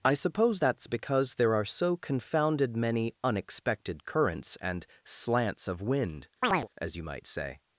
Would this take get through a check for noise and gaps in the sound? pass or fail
fail